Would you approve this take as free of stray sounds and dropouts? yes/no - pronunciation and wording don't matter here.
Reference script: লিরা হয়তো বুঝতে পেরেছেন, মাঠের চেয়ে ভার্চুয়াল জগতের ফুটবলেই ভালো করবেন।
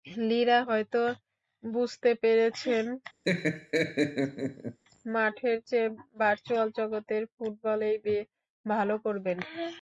no